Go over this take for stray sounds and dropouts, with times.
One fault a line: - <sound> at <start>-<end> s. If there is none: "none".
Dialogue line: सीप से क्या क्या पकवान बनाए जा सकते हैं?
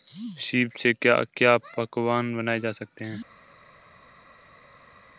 none